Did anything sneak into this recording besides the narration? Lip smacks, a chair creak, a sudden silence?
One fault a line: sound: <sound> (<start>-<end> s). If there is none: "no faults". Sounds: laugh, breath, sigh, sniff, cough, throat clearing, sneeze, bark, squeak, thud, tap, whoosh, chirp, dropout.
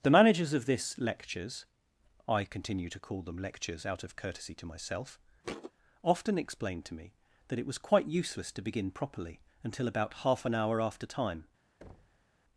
sound: thud (5.4-5.7 s)
sound: thud (11.8-12.3 s)